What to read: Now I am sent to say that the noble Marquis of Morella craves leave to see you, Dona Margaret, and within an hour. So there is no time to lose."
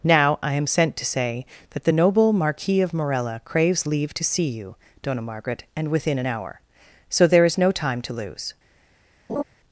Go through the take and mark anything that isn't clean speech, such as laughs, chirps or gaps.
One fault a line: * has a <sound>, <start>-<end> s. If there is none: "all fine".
* has a laugh, 9.3-9.4 s